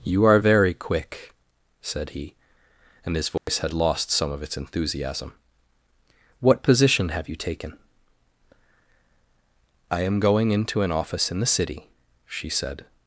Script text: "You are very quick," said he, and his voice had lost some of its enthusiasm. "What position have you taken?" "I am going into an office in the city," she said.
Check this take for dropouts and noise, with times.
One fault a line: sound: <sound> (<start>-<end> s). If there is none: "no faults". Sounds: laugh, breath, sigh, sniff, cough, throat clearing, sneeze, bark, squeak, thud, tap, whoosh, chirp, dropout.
sound: dropout (3.4-3.5 s)